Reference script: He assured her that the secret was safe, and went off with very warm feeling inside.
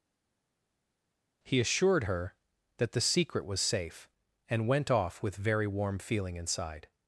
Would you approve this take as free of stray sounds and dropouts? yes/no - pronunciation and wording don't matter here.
yes